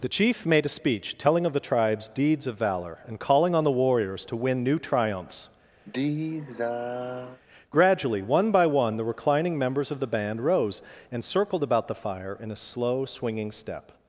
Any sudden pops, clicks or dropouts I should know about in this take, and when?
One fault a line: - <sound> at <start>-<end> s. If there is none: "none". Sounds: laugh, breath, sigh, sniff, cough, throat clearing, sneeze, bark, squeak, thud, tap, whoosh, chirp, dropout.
- sigh at 5.8-7.4 s